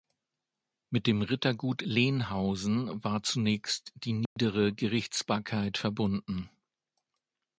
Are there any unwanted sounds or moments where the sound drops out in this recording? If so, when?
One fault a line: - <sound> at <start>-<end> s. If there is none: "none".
- dropout at 4.3-4.4 s